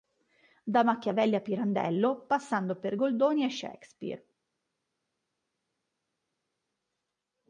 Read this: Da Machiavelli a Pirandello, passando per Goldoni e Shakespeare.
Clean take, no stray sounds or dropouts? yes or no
yes